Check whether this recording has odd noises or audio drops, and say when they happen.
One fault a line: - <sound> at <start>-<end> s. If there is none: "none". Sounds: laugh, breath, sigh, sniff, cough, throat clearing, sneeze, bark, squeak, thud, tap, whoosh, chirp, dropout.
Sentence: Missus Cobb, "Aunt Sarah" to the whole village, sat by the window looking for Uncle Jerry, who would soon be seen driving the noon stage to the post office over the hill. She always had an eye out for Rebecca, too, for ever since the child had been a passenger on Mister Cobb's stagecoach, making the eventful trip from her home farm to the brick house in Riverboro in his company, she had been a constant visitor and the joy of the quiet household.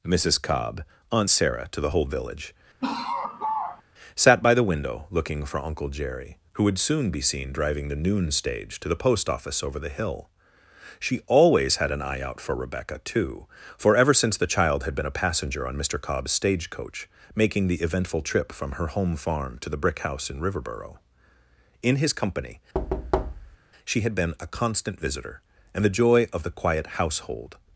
- laugh at 2.8-3.8 s
- thud at 22.7-23.6 s